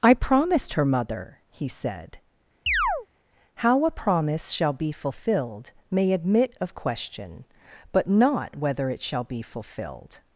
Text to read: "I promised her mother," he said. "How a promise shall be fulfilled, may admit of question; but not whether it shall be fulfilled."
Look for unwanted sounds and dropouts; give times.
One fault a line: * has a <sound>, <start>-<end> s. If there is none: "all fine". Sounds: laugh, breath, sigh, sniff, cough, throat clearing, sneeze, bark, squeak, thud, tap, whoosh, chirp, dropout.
* has a chirp, 2.7-3.1 s